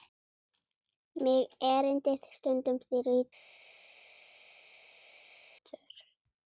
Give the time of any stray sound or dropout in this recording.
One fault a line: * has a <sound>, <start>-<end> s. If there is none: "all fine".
all fine